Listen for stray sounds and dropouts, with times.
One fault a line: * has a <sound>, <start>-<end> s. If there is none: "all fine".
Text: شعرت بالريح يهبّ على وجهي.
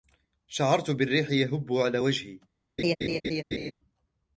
* has a laugh, 2.8-3.7 s